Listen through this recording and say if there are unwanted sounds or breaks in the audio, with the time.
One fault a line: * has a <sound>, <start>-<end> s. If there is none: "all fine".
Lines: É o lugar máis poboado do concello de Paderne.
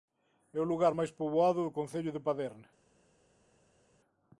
all fine